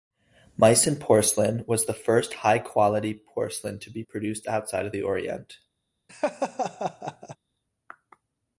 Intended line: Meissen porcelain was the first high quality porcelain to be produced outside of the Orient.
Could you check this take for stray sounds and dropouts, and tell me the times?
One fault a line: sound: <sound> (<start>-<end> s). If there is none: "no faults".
sound: laugh (6.1-7.4 s)